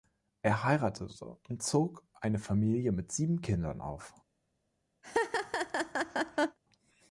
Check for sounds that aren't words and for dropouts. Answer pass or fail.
fail